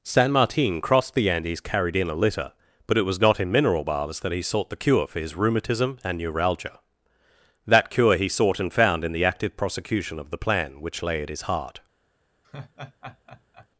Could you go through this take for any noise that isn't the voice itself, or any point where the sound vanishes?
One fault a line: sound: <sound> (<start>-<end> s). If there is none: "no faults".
sound: laugh (12.4-13.7 s)